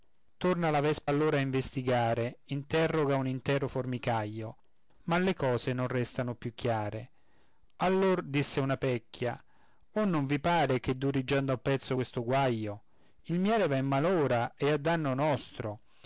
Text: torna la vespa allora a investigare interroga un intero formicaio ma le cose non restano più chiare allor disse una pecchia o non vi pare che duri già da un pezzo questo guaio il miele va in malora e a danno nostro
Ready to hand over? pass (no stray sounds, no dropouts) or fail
pass